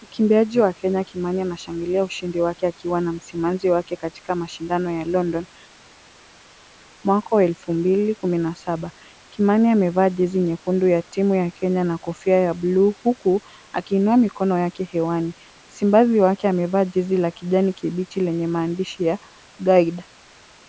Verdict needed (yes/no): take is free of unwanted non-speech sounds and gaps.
yes